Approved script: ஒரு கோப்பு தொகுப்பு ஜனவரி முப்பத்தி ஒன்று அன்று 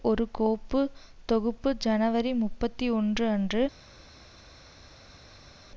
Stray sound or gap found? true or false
false